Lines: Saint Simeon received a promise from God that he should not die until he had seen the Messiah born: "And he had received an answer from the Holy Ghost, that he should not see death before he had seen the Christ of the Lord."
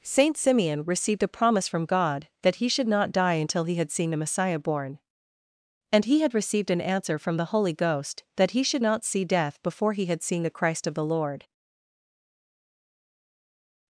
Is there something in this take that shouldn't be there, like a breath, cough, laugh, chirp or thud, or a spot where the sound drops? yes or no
no